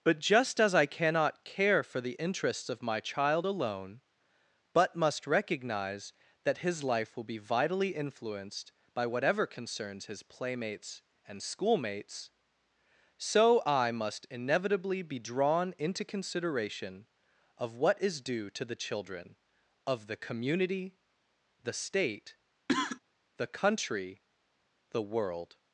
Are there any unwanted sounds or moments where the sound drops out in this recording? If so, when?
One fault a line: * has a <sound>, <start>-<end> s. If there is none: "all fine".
* has a cough, 22.7-23.0 s